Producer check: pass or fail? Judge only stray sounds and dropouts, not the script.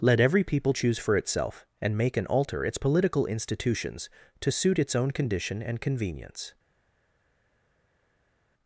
pass